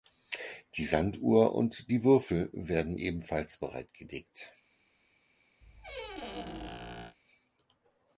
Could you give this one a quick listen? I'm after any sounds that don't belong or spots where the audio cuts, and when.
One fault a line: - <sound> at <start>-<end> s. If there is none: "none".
- squeak at 5.6-7.2 s